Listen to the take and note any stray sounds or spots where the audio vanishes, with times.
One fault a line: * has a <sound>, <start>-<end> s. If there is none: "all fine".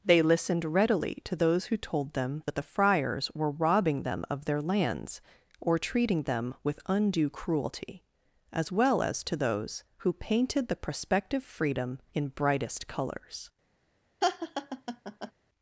* has a laugh, 14.2-15.3 s